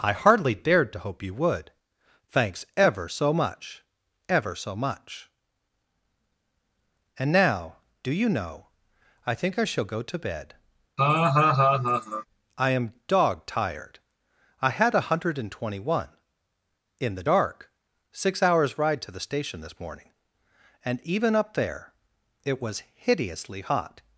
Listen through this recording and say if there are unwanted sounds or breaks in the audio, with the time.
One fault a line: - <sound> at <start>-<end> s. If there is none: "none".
- laugh at 11.0-12.3 s